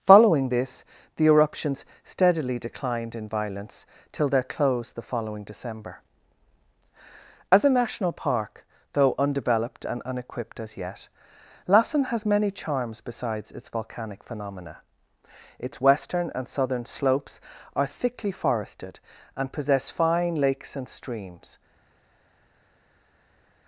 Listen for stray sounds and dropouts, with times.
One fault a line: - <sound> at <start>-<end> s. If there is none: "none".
none